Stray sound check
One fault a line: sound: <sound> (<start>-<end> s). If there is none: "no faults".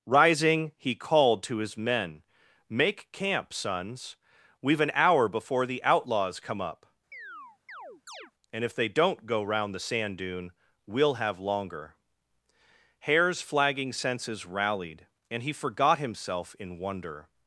sound: chirp (7.1-8.3 s)